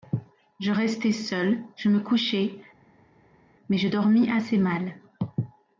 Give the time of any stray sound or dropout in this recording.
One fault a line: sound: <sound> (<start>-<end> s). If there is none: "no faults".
no faults